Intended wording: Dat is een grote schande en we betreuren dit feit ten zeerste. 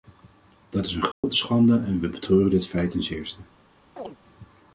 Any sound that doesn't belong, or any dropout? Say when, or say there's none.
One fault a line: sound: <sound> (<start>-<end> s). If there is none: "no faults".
sound: dropout (1.1-1.2 s)
sound: chirp (4.0-4.2 s)